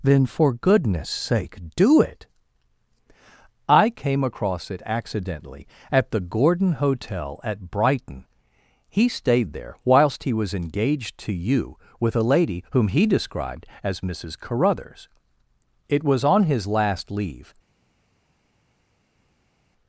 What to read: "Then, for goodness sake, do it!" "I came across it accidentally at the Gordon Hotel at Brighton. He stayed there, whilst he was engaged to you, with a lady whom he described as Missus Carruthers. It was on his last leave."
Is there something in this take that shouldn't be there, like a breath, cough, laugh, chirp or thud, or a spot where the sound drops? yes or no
no